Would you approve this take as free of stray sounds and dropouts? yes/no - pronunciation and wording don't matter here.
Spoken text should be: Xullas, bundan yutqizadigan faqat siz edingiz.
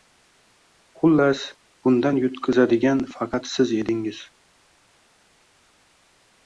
yes